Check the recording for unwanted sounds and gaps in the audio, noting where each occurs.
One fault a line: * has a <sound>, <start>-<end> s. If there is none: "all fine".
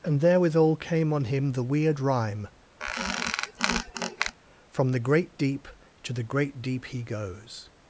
* has a squeak, 2.8-4.4 s